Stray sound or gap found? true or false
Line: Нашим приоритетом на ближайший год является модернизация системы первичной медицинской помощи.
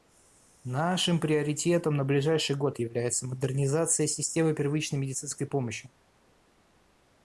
false